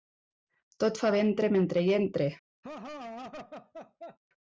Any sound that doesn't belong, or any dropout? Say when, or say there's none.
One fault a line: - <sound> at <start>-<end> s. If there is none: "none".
- laugh at 2.6-4.2 s